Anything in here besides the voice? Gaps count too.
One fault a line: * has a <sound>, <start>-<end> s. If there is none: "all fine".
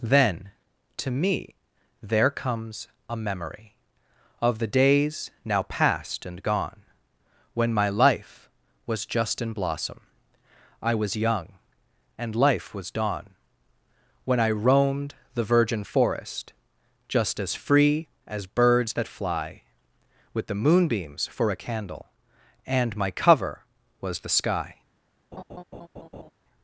* has a laugh, 25.3-26.3 s